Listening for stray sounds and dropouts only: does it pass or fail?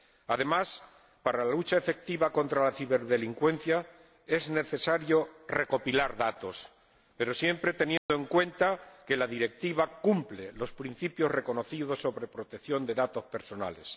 fail